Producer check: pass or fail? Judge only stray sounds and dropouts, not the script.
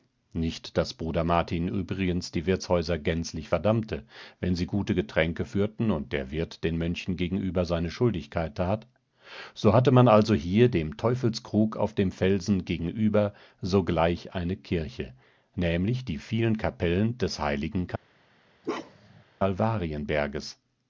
fail